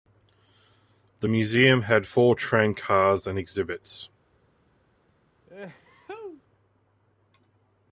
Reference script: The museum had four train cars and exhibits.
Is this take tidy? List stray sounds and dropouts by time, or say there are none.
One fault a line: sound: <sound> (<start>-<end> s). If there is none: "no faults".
sound: sneeze (5.5-6.4 s)